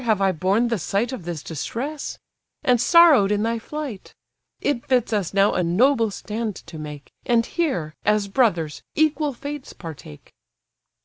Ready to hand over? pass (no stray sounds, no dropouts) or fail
pass